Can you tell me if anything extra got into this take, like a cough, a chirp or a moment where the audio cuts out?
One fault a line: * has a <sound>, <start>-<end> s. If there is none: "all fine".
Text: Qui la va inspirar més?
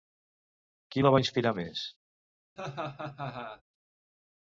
* has a laugh, 2.6-3.6 s